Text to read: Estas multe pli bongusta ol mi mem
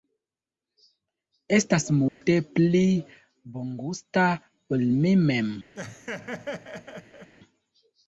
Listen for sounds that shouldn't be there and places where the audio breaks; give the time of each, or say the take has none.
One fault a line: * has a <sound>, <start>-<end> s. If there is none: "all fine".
* has a dropout, 2.1-2.2 s
* has a laugh, 5.8-7.3 s